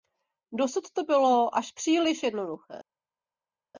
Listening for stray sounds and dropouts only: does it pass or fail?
pass